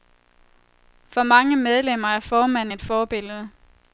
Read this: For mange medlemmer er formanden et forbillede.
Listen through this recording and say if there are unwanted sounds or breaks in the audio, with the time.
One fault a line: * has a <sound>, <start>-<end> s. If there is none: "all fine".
all fine